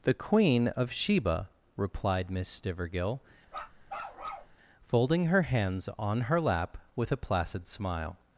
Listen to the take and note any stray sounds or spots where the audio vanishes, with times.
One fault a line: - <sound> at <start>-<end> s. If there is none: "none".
- bark at 3.5-4.6 s